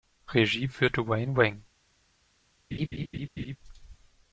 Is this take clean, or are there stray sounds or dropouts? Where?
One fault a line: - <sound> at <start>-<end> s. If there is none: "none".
- laugh at 2.7-3.6 s